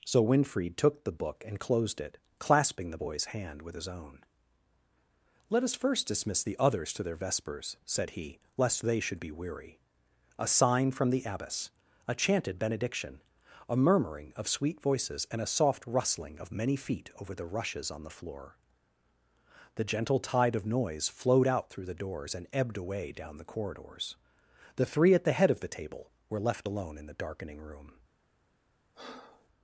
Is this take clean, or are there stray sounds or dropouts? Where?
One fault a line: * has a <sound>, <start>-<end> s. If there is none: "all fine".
* has a breath, 28.9-29.5 s